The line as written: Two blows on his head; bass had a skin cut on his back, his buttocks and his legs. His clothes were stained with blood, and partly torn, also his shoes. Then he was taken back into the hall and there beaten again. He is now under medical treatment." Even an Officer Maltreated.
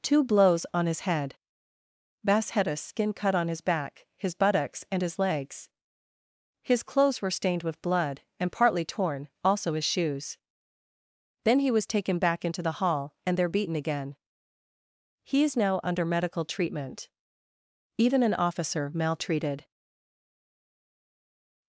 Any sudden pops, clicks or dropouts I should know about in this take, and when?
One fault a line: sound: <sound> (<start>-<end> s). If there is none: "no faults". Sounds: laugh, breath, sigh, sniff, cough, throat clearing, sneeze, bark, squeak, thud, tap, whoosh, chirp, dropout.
no faults